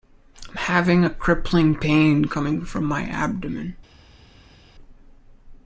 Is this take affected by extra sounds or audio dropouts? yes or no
no